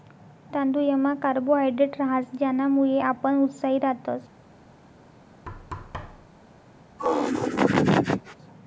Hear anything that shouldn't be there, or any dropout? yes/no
yes